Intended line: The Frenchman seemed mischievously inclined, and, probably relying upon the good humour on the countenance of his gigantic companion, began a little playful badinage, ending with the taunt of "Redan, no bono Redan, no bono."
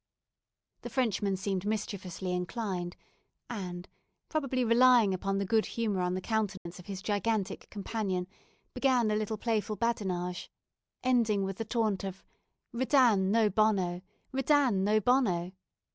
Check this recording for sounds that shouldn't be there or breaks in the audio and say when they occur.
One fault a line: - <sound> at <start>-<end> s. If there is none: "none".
- dropout at 6.6-6.7 s